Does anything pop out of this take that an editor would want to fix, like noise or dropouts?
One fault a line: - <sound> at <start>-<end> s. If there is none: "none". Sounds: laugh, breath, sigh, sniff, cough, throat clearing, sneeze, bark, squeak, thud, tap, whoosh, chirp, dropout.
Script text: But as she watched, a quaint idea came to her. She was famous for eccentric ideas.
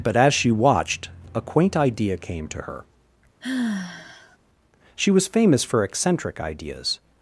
- sigh at 3.4-4.4 s